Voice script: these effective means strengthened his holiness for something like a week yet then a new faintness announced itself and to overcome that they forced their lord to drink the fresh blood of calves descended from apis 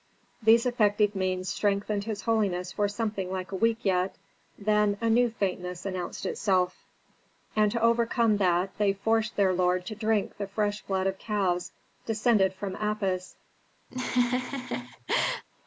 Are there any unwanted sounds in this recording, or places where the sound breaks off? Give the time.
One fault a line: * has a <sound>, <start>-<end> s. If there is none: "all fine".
* has a laugh, 13.9-15.4 s